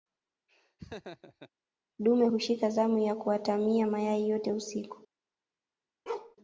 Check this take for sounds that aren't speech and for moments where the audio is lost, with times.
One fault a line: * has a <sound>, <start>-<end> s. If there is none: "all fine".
* has a laugh, 0.5-1.5 s
* has a bark, 6.1-6.4 s